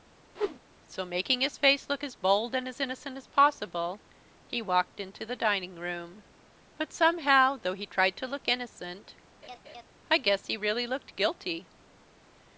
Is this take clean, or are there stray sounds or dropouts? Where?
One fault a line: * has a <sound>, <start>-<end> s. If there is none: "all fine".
* has a whoosh, 0.4-0.6 s
* has a laugh, 9.4-9.9 s